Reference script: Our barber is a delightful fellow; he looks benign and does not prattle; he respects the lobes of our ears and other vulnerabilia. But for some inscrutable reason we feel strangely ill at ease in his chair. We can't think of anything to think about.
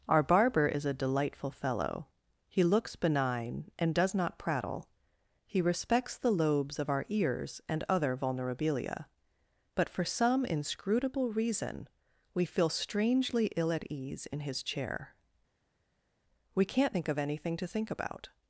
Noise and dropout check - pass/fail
pass